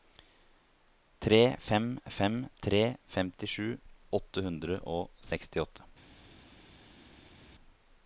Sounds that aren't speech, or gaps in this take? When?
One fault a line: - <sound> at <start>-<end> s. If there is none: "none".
none